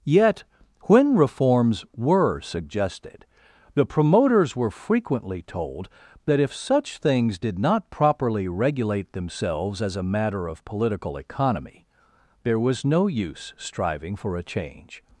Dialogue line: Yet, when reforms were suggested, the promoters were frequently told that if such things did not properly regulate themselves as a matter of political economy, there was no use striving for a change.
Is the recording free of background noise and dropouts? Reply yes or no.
yes